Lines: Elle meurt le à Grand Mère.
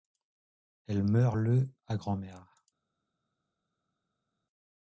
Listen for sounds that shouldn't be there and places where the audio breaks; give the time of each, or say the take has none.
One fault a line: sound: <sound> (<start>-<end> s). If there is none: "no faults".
no faults